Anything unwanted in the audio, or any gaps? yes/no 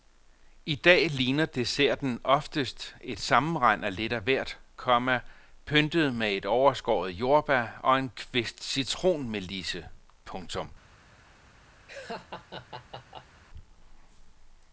yes